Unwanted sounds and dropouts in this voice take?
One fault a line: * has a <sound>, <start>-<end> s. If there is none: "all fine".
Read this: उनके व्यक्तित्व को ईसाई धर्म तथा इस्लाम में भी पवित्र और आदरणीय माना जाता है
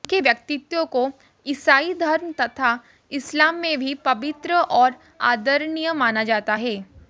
all fine